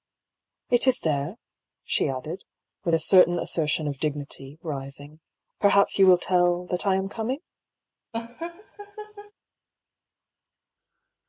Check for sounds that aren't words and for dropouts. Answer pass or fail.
fail